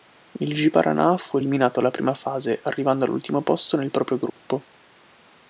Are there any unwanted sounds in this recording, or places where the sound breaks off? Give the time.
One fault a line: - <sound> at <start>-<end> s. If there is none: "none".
- dropout at 4.3-4.4 s